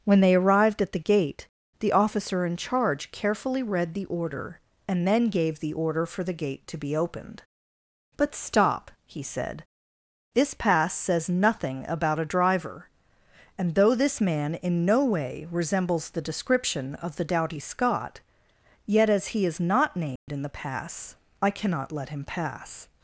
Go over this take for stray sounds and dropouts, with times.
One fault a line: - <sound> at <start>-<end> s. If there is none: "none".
- dropout at 20.2-20.3 s